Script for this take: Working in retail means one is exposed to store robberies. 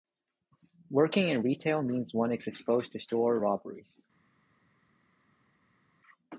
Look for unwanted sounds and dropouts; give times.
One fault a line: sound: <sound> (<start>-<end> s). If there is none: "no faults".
no faults